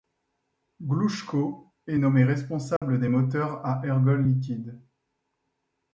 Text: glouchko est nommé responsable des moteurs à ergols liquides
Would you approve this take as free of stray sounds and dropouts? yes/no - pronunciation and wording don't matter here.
no